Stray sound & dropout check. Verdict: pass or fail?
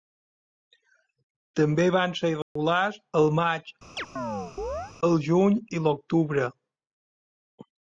fail